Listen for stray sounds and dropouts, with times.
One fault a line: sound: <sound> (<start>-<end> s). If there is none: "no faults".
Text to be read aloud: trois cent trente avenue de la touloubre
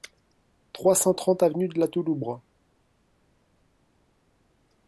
no faults